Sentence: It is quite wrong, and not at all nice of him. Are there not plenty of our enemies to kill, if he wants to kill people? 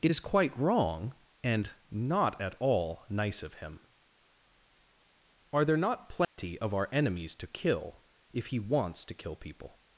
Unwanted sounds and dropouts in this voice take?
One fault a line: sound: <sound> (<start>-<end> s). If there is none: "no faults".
sound: dropout (6.2-6.4 s)